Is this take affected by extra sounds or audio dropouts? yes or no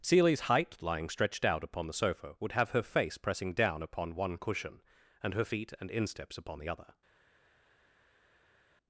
no